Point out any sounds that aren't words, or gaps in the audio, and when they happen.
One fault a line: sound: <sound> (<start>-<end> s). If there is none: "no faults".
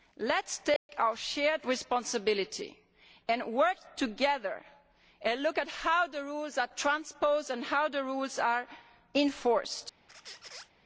sound: dropout (0.8-0.9 s)
sound: squeak (10.1-10.7 s)